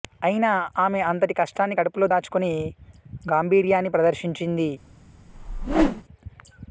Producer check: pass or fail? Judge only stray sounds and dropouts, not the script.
fail